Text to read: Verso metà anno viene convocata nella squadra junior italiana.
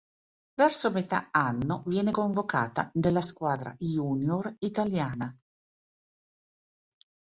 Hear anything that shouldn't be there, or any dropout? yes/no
no